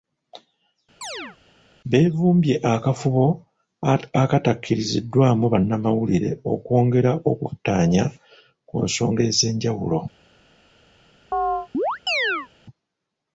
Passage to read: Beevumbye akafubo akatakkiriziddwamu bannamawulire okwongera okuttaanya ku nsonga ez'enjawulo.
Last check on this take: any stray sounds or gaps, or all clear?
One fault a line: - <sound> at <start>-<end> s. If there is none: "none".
- chirp at 1.0-1.4 s
- chirp at 11.3-12.5 s